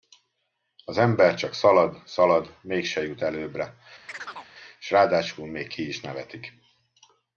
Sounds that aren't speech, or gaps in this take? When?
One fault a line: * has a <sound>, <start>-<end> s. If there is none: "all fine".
* has a chirp, 4.1-4.5 s